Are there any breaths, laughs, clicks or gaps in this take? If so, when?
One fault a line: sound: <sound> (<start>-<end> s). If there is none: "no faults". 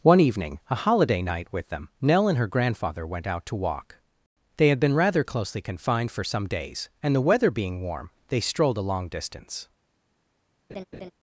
sound: laugh (10.7-11.1 s)